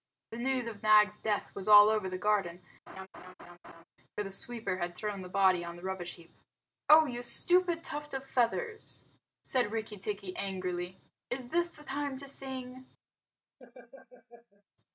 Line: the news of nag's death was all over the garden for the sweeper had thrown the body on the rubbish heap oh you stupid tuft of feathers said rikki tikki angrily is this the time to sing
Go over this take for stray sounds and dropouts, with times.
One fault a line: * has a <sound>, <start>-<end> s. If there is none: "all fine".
* has a laugh, 2.9-3.8 s
* has a laugh, 13.6-14.6 s